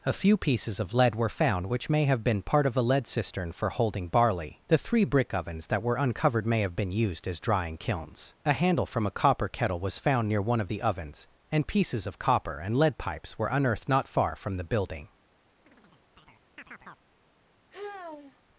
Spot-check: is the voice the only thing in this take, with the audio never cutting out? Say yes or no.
no